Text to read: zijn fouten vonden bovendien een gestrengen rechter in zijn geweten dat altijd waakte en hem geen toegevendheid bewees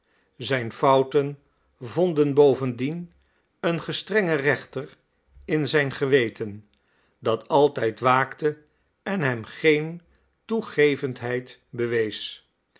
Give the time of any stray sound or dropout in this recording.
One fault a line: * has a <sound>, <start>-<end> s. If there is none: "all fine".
all fine